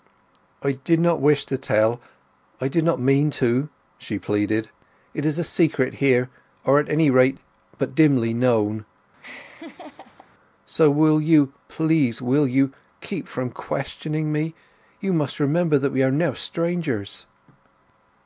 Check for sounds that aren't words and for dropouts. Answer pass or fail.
fail